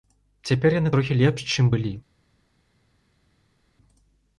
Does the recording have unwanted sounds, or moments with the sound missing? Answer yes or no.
no